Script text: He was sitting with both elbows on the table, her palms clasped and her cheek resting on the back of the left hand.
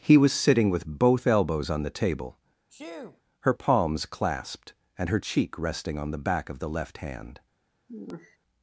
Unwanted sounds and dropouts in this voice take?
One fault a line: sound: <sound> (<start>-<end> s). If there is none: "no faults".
sound: sneeze (2.7-3.2 s)
sound: sigh (7.9-8.4 s)